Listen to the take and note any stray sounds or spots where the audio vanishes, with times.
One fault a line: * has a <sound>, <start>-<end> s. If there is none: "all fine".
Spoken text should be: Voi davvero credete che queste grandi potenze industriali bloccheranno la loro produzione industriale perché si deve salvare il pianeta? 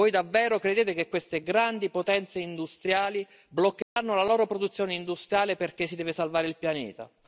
* has a dropout, 3.8-4.0 s